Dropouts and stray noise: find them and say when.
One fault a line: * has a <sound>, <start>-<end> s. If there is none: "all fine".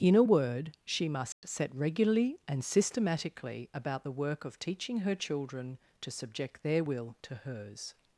* has a dropout, 1.3-1.4 s